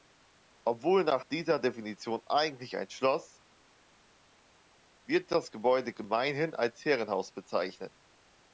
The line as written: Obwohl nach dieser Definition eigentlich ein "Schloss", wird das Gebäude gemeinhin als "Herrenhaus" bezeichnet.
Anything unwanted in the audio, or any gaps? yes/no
no